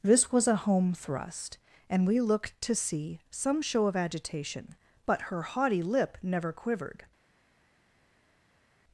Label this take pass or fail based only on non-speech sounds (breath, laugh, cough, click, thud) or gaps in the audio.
pass